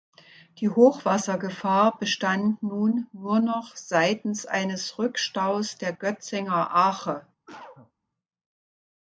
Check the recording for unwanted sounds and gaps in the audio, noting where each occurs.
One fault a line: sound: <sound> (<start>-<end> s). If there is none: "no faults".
sound: cough (7.5-7.9 s)